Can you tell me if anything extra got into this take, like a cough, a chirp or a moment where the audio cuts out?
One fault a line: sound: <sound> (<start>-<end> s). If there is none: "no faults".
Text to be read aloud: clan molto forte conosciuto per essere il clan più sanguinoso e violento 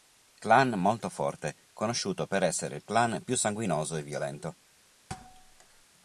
sound: thud (5.1-5.9 s)